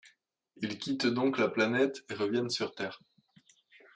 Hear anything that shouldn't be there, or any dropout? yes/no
no